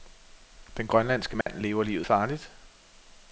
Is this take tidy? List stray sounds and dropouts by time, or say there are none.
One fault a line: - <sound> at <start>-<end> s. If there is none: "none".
- dropout at 1.4-1.5 s